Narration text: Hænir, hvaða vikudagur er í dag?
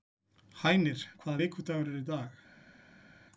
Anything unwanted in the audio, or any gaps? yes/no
no